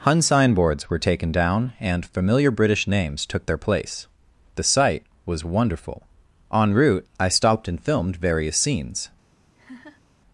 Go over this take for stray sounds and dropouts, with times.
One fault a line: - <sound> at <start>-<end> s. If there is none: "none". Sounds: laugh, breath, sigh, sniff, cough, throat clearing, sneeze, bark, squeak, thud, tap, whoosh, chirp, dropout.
- laugh at 9.5-10.0 s